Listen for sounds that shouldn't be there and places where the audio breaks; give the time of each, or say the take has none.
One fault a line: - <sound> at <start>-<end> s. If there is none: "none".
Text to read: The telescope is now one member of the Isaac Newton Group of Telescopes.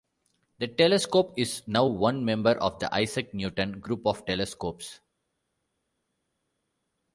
none